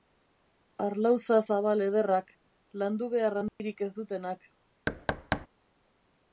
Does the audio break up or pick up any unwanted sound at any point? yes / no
yes